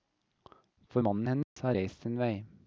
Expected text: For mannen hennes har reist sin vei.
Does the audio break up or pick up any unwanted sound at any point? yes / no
yes